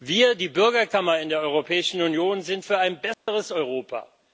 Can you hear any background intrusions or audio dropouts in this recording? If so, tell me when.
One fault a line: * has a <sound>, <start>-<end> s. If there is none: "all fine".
* has a dropout, 3.1-3.3 s